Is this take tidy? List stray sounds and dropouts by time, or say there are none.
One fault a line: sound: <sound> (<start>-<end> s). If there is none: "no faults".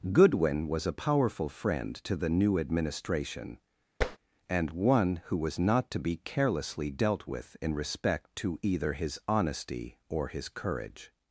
sound: tap (4.0-4.2 s)